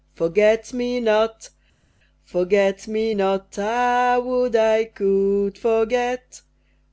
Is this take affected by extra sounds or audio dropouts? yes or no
no